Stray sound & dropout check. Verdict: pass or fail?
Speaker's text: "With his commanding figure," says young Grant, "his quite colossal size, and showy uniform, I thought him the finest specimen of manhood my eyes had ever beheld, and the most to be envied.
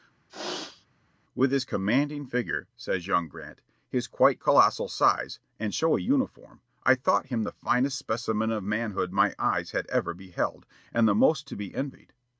fail